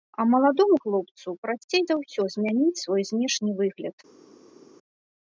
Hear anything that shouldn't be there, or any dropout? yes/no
no